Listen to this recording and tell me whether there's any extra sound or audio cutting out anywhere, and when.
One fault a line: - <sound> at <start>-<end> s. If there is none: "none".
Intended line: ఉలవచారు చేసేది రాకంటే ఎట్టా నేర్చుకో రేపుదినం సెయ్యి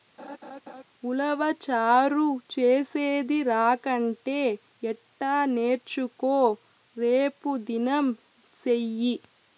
- laugh at 0.2-0.8 s